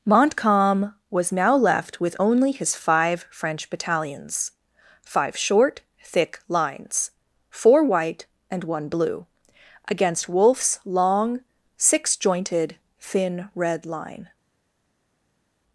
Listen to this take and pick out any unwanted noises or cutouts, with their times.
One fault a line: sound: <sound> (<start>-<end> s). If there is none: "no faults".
no faults